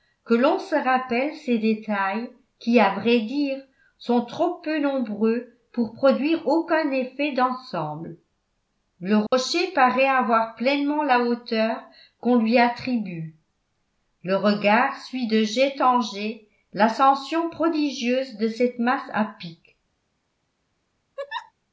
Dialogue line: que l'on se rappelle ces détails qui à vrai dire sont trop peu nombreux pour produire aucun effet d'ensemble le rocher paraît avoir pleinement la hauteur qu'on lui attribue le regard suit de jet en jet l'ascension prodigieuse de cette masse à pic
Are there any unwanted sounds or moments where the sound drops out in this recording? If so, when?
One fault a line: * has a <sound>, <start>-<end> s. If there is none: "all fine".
* has a dropout, 9.3-9.3 s
* has a laugh, 21.2-21.5 s